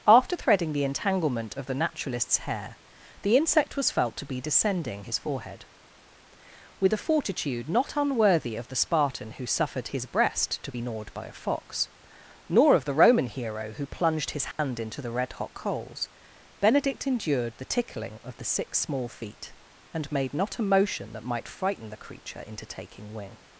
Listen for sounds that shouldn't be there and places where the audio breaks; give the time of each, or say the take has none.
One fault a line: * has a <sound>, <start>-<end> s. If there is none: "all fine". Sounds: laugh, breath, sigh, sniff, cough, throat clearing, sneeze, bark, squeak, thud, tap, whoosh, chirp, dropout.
* has a dropout, 14.5-14.6 s